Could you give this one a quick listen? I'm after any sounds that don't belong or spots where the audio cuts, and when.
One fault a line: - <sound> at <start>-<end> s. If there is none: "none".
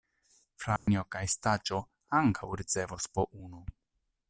- dropout at 0.8-0.9 s